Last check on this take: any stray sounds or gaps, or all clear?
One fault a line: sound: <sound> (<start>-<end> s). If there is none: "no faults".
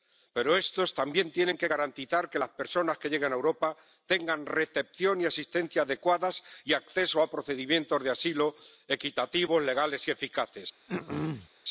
sound: throat clearing (10.9-11.5 s)